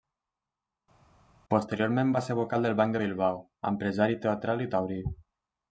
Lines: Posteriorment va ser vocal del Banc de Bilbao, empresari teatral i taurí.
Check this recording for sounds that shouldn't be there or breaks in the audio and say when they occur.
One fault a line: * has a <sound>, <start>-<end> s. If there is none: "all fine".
all fine